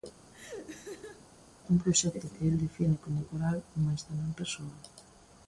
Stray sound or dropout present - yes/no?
yes